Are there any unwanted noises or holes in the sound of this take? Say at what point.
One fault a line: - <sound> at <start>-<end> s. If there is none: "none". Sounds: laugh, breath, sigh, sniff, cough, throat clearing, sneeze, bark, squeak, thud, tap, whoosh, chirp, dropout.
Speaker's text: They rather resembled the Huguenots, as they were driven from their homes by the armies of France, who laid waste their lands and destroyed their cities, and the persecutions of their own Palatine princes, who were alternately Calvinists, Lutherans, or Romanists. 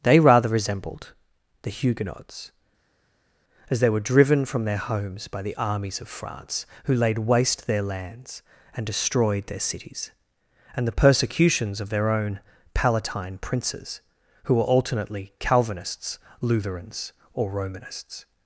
none